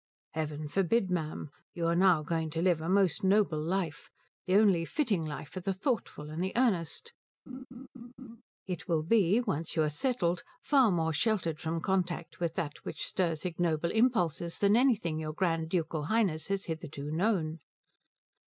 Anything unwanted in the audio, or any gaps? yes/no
yes